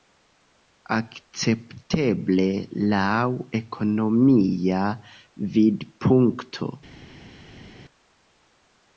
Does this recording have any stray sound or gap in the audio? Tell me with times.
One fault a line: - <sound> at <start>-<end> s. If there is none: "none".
none